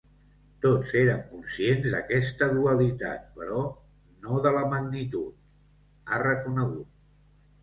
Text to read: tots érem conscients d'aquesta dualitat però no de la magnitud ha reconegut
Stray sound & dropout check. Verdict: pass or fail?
pass